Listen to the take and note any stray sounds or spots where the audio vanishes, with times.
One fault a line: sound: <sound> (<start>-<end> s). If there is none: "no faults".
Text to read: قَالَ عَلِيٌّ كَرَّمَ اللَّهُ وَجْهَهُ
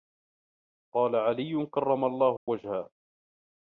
sound: dropout (2.4-2.5 s)